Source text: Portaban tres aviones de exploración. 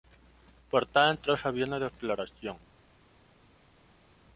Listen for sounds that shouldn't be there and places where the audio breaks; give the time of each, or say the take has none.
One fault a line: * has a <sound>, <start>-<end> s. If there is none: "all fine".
all fine